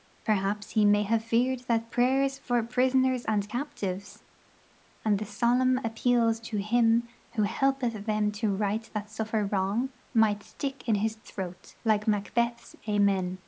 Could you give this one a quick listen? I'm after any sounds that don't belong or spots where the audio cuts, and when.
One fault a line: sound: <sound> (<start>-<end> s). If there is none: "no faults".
no faults